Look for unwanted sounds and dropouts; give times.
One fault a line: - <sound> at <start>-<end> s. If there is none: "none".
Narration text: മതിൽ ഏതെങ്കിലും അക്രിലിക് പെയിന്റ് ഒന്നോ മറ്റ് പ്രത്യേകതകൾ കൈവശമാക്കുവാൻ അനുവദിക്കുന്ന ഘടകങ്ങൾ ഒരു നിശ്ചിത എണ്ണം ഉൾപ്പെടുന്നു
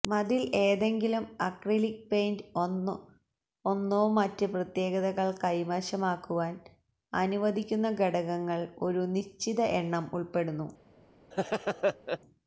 - laugh at 11.3-12.2 s